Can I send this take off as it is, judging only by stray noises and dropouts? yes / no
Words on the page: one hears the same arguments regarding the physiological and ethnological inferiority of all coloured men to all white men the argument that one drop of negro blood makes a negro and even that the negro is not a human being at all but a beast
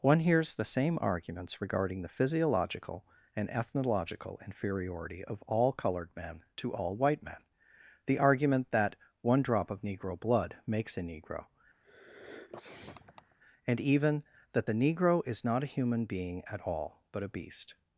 no